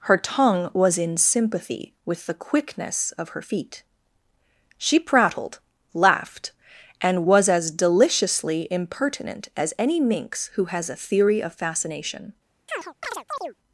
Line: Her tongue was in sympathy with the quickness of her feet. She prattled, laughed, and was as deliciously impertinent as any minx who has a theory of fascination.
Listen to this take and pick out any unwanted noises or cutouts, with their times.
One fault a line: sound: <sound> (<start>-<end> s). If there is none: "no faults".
sound: chirp (12.7-13.5 s)